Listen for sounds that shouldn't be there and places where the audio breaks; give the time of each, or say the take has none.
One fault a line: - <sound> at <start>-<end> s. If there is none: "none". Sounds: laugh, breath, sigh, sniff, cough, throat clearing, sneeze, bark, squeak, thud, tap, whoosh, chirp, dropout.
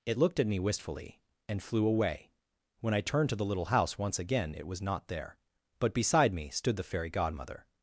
none